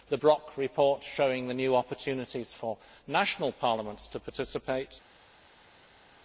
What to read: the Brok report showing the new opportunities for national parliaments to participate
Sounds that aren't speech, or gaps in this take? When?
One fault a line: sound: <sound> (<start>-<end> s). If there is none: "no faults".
no faults